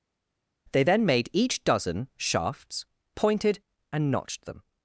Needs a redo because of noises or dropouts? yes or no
no